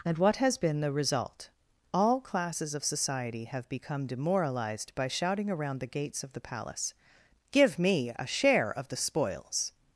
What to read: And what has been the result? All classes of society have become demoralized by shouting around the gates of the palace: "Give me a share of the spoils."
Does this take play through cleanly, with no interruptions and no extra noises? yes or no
yes